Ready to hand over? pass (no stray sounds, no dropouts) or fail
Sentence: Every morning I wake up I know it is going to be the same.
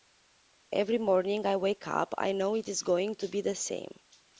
pass